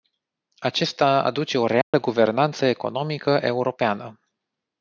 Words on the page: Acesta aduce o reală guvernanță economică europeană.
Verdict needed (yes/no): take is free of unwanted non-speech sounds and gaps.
no